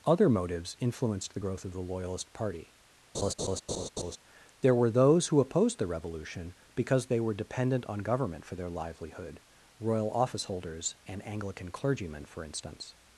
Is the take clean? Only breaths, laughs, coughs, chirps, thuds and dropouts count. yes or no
no